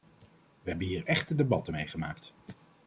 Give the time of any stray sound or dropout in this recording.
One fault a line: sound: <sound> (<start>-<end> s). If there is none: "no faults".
no faults